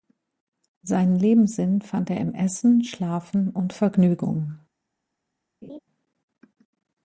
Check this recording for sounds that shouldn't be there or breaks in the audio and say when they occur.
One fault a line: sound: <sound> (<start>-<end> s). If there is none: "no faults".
sound: laugh (5.6-5.8 s)